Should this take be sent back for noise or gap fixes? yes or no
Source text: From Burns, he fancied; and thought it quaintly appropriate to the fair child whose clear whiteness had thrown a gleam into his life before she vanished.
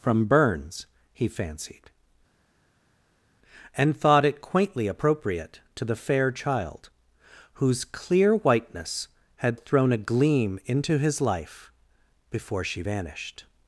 no